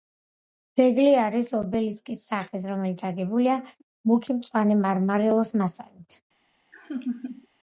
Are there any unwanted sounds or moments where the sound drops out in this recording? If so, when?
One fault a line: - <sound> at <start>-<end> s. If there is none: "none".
- laugh at 6.7-7.5 s